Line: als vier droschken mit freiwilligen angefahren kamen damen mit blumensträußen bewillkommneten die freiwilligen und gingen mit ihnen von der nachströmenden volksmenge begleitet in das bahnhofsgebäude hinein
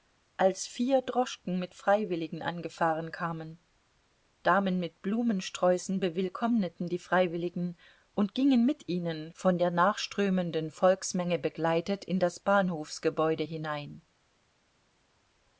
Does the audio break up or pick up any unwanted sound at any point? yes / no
no